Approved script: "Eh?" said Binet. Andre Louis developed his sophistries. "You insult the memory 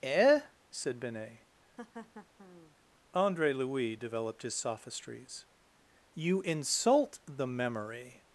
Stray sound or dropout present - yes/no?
yes